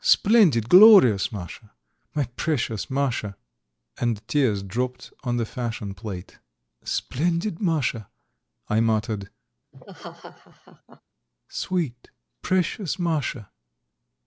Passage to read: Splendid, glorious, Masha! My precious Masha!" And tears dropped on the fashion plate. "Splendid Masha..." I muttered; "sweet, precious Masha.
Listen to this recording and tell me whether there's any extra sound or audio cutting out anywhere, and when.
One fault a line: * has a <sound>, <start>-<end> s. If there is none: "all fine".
* has a laugh, 9.7-11.0 s